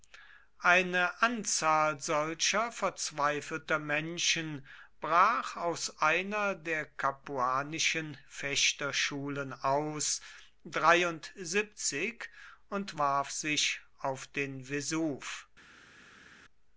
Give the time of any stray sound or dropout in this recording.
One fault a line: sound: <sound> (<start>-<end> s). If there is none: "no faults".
no faults